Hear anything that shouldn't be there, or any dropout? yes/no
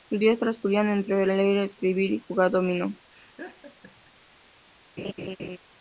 yes